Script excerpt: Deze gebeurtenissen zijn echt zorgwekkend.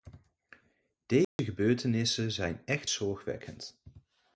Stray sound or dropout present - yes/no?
yes